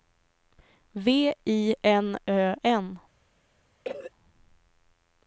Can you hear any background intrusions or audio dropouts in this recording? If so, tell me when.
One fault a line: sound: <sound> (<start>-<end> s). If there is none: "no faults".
sound: cough (3.8-4.1 s)